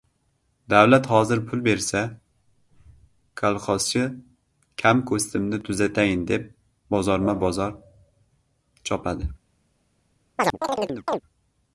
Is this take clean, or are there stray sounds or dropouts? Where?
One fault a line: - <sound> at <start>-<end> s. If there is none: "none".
- chirp at 10.4-11.2 s